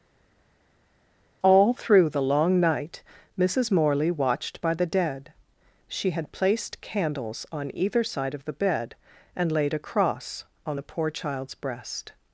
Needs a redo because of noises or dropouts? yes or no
no